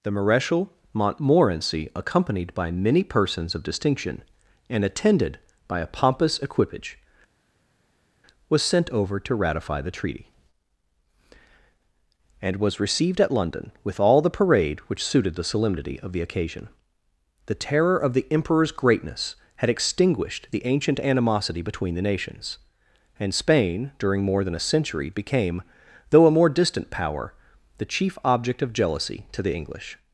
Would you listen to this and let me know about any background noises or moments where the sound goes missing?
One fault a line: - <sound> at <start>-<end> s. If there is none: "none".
none